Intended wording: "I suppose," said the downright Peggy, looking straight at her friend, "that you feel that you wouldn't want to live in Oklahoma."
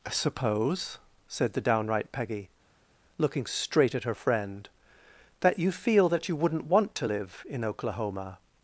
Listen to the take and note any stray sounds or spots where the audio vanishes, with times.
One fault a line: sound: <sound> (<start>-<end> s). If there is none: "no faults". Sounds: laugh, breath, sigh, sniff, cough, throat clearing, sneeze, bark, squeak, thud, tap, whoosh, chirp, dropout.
no faults